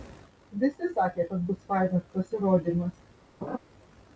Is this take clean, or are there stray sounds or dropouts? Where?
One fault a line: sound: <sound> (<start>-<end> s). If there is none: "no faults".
sound: laugh (3.4-3.6 s)